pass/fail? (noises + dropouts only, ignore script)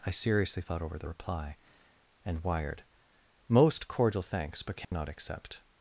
fail